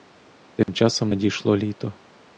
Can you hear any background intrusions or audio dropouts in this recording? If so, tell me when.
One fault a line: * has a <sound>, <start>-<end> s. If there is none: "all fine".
* has a dropout, 0.6-0.7 s